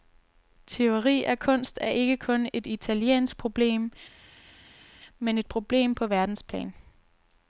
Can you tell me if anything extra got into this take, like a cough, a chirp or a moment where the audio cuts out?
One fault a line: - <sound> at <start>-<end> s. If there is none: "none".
none